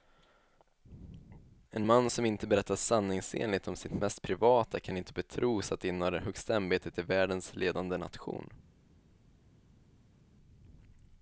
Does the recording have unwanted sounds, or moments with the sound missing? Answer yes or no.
no